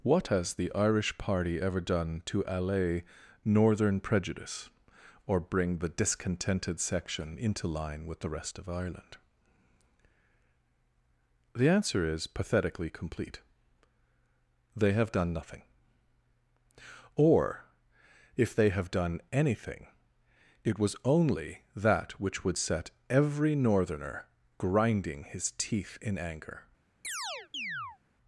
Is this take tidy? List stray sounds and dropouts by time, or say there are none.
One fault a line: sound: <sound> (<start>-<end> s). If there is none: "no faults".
sound: chirp (27.0-28.0 s)